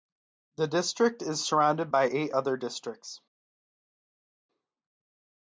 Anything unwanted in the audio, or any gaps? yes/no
no